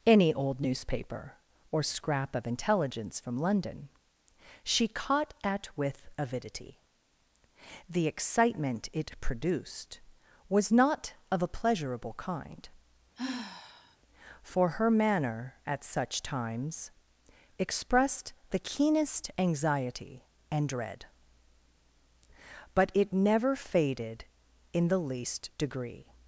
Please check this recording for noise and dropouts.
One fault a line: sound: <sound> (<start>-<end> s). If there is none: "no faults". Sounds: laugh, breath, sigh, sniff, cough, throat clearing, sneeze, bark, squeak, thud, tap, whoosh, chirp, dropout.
sound: sigh (13.2-14.0 s)